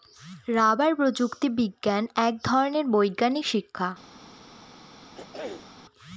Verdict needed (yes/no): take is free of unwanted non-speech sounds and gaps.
no